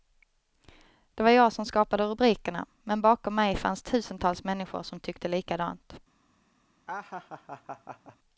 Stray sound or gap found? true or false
true